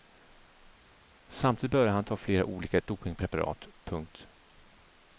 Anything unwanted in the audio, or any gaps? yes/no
no